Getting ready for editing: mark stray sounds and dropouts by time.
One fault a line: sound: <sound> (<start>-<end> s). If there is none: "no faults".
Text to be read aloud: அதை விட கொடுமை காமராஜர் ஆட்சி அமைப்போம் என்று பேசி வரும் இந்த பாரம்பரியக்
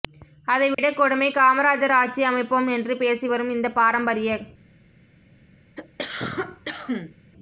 sound: dropout (0.7-0.8 s)
sound: cough (5.8-7.2 s)